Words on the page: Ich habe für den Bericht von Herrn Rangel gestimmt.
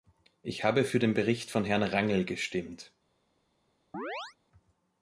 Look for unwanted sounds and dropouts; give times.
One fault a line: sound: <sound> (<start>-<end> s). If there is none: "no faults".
sound: chirp (3.9-4.4 s)